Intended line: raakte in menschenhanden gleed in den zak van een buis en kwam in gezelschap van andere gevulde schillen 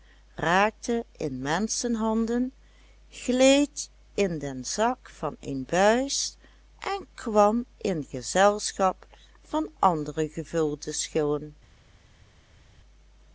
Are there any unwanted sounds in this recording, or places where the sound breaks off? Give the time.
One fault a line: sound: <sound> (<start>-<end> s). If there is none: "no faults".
no faults